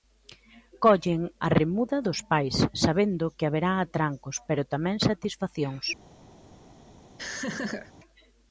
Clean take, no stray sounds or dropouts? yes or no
no